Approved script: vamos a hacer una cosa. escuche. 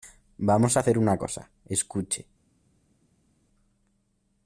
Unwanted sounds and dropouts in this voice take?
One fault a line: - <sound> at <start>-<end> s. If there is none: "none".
none